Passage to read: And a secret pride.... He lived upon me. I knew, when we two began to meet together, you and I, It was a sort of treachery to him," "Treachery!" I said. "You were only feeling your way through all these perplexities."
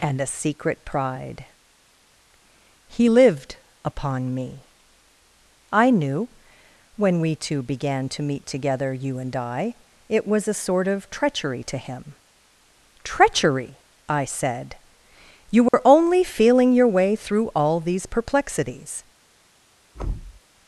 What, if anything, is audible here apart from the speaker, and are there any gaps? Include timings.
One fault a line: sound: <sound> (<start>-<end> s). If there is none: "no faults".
sound: dropout (15.7-15.7 s)
sound: thud (19.9-20.4 s)